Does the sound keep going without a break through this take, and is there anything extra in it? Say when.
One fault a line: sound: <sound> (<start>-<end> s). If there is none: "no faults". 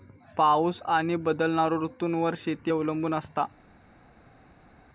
no faults